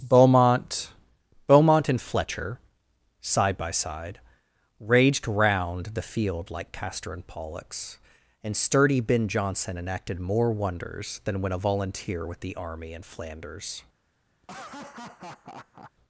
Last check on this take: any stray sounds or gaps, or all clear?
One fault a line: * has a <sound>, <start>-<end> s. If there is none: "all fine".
* has a laugh, 14.4-15.9 s